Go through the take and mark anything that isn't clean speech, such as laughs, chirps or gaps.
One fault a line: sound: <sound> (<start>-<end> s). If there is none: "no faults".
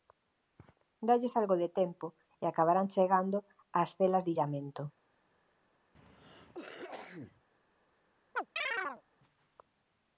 sound: cough (5.9-7.4 s)
sound: chirp (8.4-9.0 s)